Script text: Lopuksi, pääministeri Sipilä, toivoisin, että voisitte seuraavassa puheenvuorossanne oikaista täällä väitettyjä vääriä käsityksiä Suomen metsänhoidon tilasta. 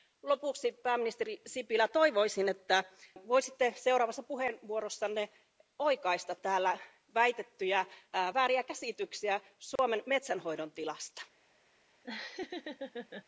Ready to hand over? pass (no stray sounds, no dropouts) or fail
fail